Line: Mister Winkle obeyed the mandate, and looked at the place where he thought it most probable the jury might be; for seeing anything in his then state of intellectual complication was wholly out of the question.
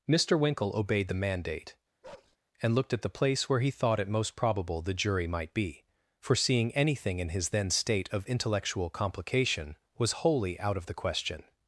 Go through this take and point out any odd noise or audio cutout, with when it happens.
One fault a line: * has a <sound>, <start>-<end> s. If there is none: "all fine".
* has a bark, 2.0-2.4 s